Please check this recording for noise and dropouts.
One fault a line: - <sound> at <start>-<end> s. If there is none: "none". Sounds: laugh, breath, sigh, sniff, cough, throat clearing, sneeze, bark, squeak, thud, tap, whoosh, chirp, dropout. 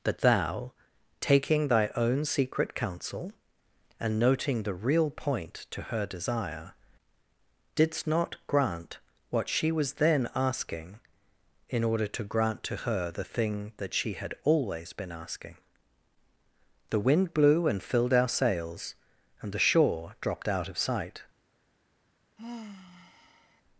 - sigh at 22.4-23.6 s